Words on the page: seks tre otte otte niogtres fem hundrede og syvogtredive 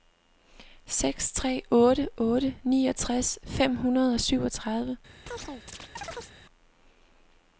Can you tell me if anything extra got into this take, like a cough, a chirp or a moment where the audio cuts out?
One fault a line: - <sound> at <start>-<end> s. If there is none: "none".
- chirp at 5.3-6.3 s